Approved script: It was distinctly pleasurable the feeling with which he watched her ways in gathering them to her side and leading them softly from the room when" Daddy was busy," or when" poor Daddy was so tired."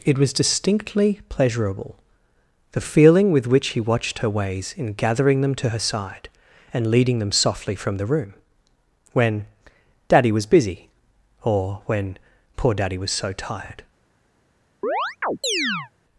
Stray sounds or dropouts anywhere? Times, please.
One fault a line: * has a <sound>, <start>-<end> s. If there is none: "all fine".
* has a chirp, 14.8-15.9 s